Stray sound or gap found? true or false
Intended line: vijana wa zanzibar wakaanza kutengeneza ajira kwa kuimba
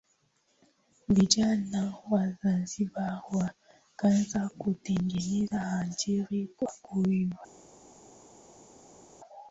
false